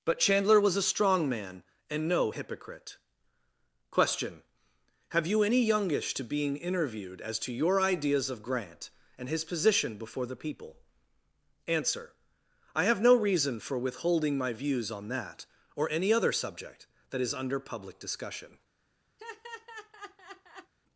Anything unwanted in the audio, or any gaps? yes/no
yes